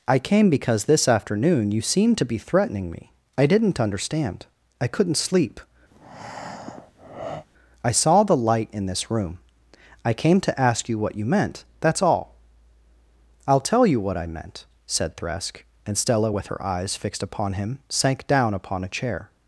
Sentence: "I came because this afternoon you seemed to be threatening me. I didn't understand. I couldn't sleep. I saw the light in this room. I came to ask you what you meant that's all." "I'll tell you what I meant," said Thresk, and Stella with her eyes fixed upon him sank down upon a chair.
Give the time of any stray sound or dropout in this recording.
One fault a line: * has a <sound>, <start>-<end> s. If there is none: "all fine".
* has a breath, 5.9-7.5 s